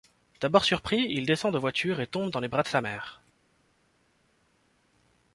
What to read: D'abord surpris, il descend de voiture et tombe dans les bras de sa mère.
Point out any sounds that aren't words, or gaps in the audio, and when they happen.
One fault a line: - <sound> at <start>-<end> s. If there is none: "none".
none